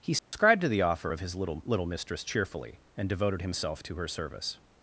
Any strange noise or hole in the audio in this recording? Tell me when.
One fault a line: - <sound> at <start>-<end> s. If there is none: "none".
- dropout at 0.2-0.3 s